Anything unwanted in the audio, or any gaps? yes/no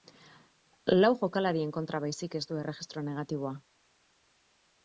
no